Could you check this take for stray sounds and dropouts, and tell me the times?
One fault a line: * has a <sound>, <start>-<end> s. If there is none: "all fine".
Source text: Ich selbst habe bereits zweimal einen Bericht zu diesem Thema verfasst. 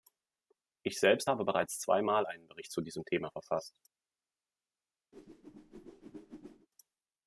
* has a whoosh, 5.1-6.7 s